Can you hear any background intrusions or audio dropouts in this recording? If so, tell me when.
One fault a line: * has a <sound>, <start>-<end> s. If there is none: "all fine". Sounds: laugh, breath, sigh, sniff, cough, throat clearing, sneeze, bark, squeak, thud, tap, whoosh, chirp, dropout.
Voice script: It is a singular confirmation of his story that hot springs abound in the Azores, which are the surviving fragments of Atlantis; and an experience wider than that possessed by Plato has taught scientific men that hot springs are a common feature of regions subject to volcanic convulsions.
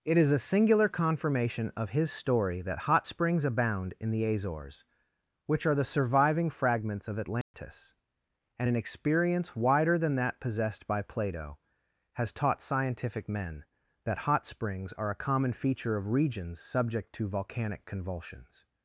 * has a dropout, 7.4-7.5 s